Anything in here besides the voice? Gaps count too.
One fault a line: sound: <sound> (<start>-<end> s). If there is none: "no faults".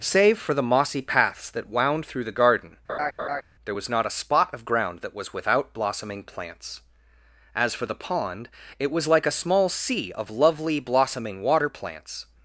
sound: laugh (2.9-3.4 s)